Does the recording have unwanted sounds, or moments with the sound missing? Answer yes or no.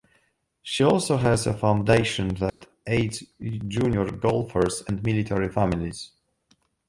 yes